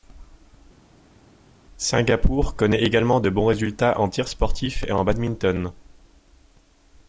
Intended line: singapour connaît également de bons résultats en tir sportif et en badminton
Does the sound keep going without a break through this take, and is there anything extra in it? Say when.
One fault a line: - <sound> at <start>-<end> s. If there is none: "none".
none